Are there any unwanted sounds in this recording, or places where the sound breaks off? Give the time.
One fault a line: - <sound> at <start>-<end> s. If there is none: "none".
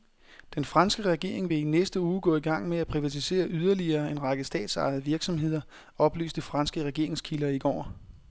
none